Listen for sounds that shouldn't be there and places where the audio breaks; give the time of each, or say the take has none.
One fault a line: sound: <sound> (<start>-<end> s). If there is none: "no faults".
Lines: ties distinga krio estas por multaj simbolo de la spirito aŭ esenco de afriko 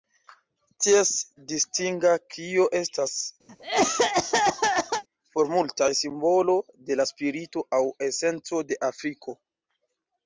sound: cough (3.5-5.0 s)